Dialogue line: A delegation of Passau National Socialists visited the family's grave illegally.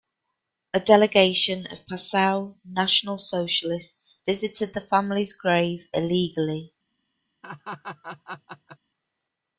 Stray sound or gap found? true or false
true